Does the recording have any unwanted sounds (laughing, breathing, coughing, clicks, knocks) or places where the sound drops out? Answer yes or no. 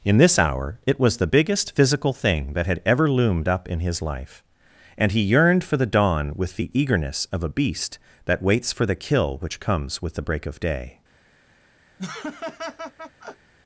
yes